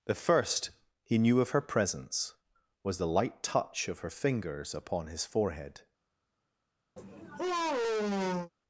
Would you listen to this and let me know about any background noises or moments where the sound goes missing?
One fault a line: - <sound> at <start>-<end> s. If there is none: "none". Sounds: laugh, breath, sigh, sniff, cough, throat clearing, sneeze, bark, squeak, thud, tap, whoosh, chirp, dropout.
- sigh at 7.0-8.5 s